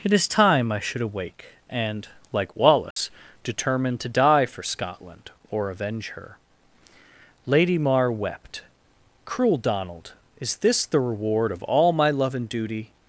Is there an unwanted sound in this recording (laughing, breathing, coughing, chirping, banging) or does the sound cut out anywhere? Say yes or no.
yes